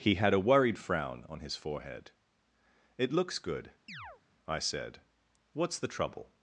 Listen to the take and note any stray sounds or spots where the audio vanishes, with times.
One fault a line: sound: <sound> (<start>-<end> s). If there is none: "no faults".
sound: chirp (3.9-4.2 s)